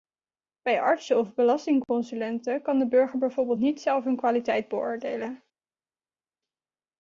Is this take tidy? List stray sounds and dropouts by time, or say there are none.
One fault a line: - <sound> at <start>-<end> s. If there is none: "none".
none